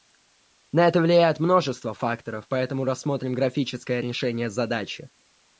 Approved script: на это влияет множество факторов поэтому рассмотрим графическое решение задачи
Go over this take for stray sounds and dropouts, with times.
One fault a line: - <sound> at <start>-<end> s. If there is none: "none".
none